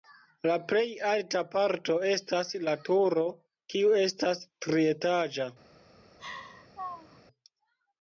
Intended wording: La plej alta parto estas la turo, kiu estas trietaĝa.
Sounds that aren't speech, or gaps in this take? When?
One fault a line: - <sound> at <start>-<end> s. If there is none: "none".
- laugh at 6.2-7.2 s